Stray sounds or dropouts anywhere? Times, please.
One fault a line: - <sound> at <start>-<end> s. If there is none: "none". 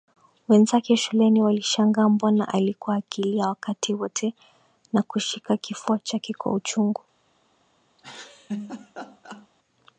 - laugh at 8.0-9.5 s